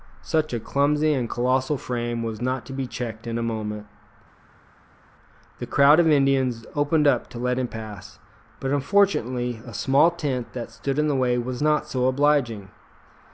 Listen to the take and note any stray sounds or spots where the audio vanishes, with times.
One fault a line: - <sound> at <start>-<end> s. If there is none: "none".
none